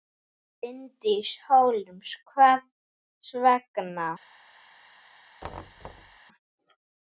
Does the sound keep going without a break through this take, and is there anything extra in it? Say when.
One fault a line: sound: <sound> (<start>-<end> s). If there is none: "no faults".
sound: thud (5.4-6.2 s)